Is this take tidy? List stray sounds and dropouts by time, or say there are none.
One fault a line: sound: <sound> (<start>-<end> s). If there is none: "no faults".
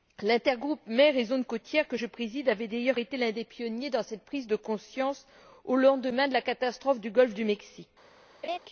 sound: laugh (8.4-8.6 s)